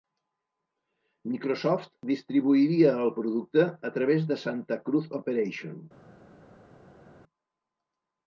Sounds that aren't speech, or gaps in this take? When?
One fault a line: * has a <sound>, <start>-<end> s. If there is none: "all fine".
all fine